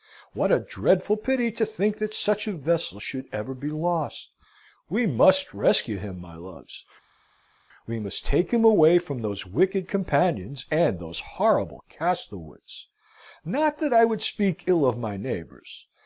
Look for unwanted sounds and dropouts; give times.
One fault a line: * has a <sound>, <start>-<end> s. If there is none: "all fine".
all fine